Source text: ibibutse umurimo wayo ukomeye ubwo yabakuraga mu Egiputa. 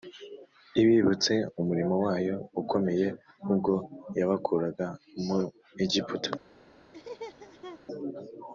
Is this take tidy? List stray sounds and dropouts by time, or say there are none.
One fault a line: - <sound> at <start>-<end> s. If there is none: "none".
- laugh at 6.9-7.8 s